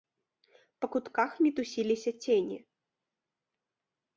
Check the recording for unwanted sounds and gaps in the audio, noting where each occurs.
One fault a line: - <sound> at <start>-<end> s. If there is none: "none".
none